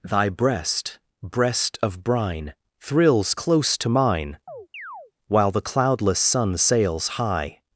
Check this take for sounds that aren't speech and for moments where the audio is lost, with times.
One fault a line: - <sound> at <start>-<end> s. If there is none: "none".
- chirp at 4.5-5.1 s